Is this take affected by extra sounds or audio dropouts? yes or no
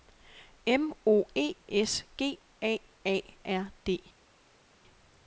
no